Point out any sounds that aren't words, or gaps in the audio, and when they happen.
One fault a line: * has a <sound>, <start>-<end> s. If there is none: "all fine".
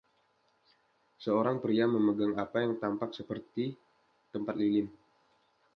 all fine